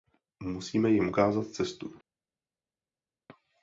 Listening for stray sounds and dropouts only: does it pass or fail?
pass